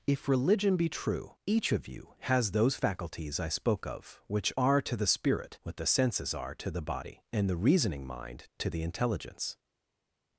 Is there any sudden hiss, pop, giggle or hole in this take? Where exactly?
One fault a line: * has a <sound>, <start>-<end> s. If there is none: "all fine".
all fine